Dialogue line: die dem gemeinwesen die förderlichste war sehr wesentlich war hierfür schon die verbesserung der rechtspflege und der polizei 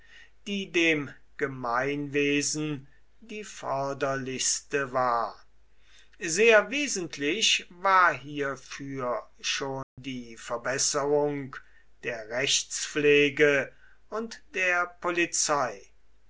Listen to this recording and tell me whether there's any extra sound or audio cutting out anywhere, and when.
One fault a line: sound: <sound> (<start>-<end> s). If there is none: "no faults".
sound: dropout (9.8-10.0 s)